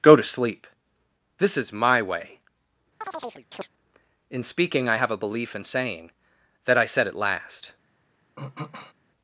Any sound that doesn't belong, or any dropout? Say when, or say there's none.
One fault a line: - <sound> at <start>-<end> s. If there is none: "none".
- chirp at 3.0-3.7 s
- throat clearing at 8.4-8.9 s